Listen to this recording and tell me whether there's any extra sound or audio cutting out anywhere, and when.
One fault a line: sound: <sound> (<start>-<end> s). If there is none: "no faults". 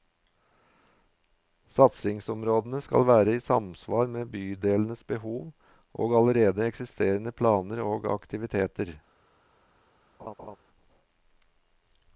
sound: laugh (10.2-10.6 s)